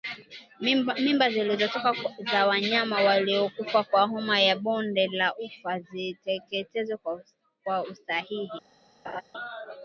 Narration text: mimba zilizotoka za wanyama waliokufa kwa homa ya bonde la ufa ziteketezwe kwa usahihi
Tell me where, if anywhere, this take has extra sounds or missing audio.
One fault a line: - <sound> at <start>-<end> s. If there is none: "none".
- laugh at 9.0-9.2 s